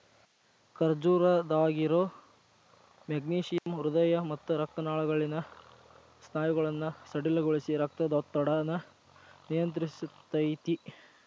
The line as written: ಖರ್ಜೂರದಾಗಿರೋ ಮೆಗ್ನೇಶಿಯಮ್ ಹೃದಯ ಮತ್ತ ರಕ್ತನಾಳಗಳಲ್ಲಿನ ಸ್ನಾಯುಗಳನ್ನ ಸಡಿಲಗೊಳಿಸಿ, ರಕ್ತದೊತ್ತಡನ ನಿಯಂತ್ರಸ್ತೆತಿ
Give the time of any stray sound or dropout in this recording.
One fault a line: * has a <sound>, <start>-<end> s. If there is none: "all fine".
* has a dropout, 3.6-3.7 s